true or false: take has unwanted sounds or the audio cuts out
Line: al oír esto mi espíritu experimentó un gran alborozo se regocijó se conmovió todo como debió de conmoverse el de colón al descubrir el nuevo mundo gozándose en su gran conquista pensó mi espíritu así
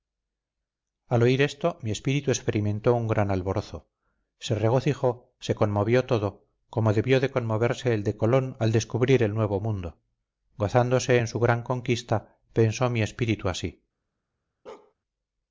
true